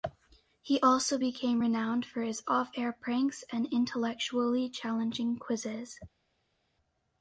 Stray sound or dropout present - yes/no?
no